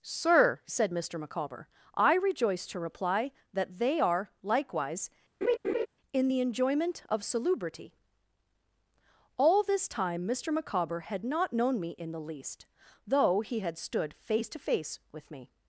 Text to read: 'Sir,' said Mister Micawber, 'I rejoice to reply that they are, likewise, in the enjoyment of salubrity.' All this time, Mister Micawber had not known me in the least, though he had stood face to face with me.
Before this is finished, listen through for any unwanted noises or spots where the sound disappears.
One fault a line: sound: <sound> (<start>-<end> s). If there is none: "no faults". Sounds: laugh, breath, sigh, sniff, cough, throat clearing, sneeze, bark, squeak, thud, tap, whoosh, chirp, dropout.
sound: laugh (5.4-5.9 s)